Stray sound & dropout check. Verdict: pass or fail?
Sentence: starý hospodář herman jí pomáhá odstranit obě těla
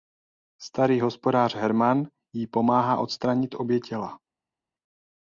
pass